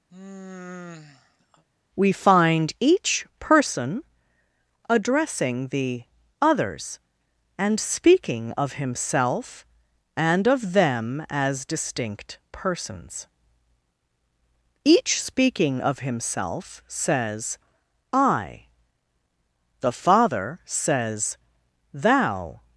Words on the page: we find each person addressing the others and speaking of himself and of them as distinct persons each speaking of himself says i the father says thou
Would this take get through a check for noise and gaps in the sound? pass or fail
fail